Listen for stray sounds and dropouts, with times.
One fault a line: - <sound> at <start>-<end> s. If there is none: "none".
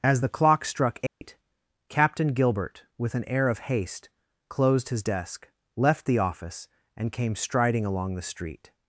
- dropout at 1.1-1.2 s